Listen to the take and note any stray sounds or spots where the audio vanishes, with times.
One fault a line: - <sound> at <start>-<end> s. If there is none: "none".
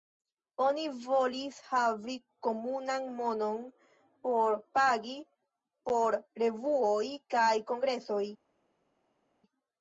none